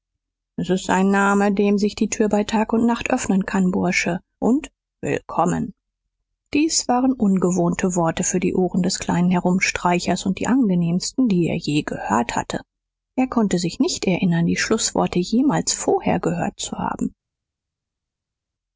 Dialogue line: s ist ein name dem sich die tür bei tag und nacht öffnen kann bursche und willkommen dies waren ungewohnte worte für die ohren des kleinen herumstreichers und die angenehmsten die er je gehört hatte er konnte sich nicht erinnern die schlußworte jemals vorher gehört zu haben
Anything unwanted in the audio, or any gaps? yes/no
no